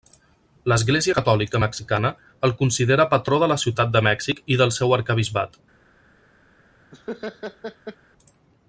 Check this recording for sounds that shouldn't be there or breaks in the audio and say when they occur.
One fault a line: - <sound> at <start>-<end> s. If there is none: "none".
- laugh at 6.9-8.0 s